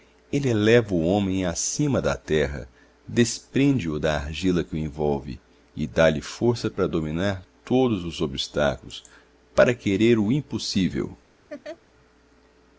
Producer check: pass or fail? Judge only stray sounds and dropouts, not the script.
fail